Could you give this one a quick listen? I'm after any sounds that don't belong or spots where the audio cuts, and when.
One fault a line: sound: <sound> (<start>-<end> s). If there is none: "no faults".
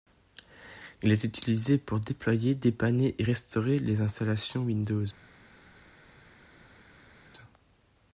no faults